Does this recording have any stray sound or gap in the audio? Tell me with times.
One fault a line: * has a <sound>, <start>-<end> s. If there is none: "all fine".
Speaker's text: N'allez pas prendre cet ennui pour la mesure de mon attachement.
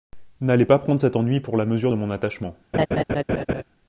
* has a laugh, 2.7-3.6 s